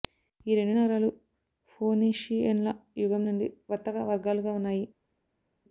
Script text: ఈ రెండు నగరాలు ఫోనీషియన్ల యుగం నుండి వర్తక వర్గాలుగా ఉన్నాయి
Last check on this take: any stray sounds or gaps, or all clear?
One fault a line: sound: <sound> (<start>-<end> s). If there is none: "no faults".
no faults